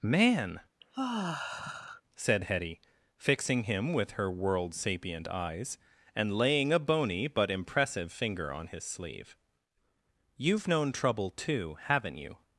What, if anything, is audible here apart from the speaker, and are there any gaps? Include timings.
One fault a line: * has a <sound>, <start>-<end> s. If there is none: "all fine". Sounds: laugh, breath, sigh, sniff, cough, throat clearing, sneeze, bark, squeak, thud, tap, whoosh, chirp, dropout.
* has a sigh, 0.8-2.0 s